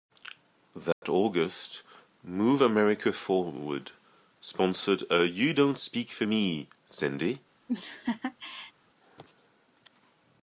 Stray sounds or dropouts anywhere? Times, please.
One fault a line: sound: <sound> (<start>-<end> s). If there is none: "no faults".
sound: dropout (0.9-1.0 s)
sound: laugh (7.7-8.7 s)